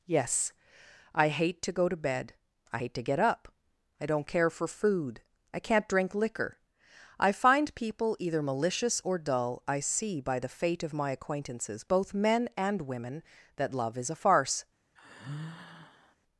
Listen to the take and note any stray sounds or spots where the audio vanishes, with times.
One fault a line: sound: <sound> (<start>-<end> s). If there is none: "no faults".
sound: sigh (15.0-16.2 s)